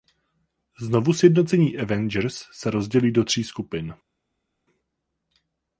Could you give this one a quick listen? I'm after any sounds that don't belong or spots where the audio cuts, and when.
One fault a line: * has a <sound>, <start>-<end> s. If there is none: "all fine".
all fine